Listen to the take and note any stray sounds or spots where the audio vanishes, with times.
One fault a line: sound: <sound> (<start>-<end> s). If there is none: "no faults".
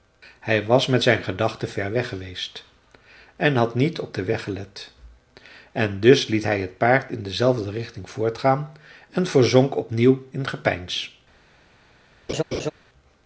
sound: laugh (12.3-12.7 s)